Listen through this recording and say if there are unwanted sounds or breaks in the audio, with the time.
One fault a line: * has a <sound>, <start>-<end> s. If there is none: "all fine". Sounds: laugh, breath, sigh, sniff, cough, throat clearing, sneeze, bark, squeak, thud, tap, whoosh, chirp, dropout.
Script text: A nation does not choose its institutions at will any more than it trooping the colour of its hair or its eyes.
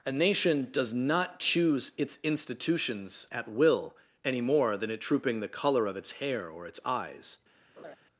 * has a laugh, 7.8-8.0 s